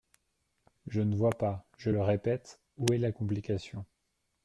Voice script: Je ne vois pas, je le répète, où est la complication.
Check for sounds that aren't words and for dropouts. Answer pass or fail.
pass